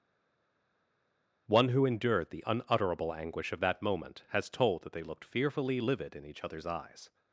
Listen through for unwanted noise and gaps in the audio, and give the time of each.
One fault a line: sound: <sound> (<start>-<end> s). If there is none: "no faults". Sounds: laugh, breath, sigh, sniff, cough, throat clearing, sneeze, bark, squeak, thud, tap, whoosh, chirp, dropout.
no faults